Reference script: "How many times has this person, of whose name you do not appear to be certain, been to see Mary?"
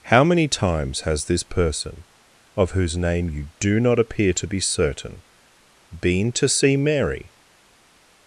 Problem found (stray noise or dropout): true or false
false